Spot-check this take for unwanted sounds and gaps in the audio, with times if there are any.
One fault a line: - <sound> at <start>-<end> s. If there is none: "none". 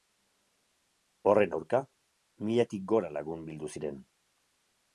none